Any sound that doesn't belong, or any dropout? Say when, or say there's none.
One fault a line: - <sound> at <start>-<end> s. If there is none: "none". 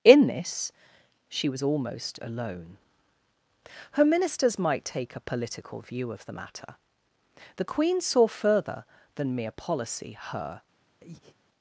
- breath at 11.0-11.4 s